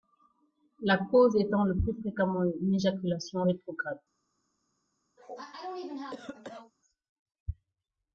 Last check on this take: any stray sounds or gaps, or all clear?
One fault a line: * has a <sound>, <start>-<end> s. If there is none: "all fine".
* has a cough, 5.2-6.7 s